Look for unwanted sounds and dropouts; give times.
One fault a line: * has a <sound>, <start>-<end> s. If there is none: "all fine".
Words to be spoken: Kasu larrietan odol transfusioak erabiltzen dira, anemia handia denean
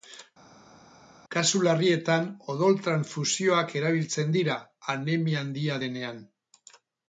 all fine